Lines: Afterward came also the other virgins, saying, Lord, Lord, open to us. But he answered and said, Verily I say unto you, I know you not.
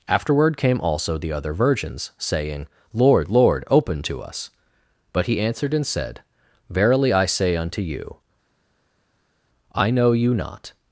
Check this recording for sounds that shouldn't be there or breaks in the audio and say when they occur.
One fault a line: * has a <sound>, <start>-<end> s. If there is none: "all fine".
all fine